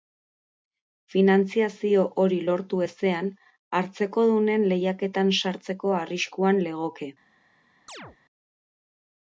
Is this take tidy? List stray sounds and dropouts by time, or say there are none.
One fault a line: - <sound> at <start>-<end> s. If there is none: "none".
- chirp at 7.9-8.2 s